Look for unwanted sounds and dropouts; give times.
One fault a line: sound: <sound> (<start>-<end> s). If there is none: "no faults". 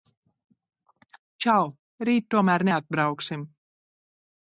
no faults